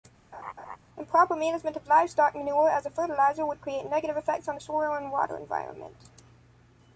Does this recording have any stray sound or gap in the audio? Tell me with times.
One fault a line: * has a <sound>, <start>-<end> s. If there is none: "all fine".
* has a laugh, 0.3-0.8 s